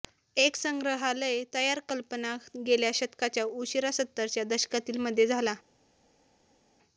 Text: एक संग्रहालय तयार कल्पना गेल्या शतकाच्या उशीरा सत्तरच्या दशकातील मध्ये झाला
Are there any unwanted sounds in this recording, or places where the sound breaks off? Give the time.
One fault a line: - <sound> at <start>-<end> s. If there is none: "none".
none